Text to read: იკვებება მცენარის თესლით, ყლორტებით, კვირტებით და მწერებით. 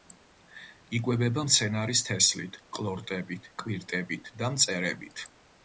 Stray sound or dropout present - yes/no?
no